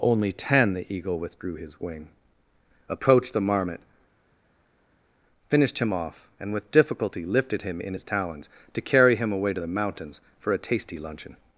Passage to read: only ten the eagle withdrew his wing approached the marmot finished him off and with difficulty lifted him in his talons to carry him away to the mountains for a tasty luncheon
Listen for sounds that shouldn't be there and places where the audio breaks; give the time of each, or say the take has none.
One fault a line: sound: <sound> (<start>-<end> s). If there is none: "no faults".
no faults